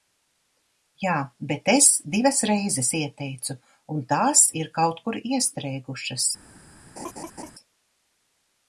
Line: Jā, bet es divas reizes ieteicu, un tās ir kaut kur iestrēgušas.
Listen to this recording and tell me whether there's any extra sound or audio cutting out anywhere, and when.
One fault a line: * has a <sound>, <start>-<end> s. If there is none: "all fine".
* has a laugh, 7.0-7.5 s